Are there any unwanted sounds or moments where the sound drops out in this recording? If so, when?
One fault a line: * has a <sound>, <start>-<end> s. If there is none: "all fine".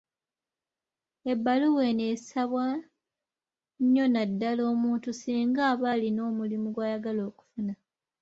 all fine